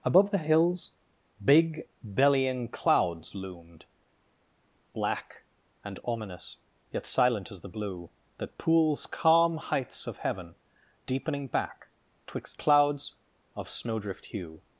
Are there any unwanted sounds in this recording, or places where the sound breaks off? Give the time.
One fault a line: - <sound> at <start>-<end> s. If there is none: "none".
none